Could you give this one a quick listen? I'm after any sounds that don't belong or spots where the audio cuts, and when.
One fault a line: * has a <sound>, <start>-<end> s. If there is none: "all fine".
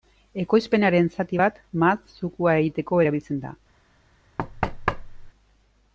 * has a thud, 4.4-5.3 s